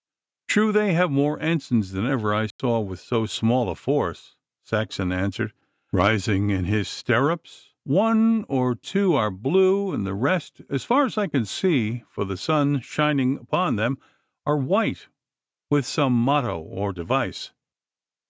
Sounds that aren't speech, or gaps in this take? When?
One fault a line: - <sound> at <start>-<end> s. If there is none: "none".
- dropout at 2.5-2.6 s